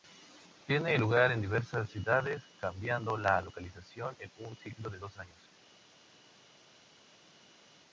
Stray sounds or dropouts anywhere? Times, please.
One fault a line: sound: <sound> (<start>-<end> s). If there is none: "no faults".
no faults